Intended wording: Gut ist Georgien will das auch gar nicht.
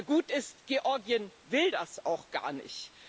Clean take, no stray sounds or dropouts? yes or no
yes